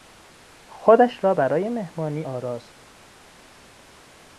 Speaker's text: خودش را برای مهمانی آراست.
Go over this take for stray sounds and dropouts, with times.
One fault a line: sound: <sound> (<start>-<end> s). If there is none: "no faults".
no faults